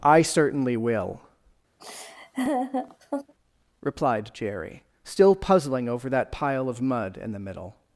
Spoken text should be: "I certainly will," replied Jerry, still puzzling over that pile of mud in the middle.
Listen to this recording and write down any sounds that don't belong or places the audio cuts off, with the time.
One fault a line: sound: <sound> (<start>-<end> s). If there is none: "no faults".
sound: laugh (1.8-3.3 s)